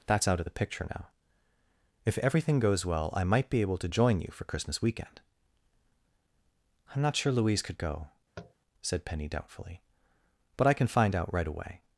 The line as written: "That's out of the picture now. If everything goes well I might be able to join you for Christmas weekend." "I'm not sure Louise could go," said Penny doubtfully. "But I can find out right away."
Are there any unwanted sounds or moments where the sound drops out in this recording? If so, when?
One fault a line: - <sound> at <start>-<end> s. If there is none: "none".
- tap at 8.4-8.5 s